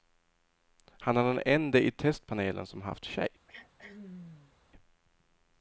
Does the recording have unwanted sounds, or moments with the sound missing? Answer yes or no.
yes